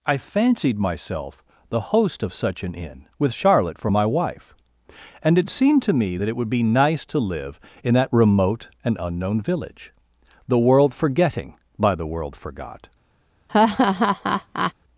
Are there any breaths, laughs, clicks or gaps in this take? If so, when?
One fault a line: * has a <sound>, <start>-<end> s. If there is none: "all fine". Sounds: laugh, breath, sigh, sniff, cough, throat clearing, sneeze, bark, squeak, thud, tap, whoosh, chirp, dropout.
* has a laugh, 13.5-14.7 s